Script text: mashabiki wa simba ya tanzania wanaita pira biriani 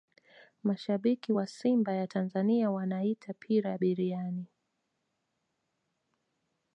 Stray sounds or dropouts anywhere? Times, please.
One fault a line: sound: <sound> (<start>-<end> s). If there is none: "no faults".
no faults